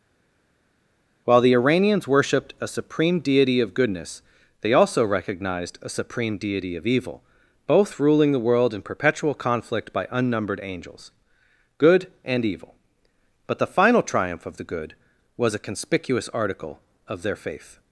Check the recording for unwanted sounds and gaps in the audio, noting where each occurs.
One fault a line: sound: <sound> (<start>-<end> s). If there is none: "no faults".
no faults